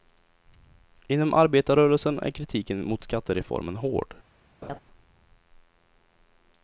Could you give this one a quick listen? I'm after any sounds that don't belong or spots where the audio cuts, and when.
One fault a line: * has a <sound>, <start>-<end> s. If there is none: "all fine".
* has a laugh, 4.6-4.8 s